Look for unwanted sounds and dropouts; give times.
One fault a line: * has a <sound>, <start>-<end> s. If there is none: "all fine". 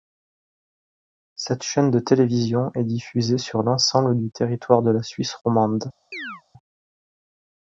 * has a chirp, 6.1-6.4 s